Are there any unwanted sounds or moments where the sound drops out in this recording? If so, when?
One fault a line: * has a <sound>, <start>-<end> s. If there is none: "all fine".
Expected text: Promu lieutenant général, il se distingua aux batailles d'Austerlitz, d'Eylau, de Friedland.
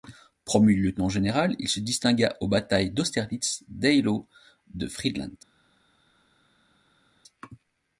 all fine